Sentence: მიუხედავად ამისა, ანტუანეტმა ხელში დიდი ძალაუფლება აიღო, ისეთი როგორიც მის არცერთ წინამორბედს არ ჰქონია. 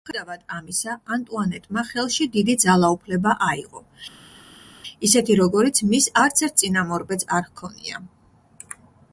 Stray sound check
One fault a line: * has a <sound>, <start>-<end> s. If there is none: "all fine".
all fine